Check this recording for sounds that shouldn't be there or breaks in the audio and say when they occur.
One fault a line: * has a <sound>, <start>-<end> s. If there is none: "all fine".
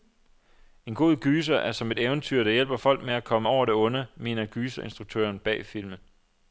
all fine